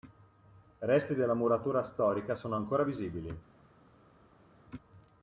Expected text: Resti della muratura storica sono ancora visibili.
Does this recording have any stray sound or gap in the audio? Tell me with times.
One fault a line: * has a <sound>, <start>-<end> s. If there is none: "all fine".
all fine